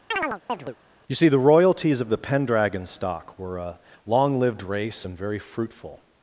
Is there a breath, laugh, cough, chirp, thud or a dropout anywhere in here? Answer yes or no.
yes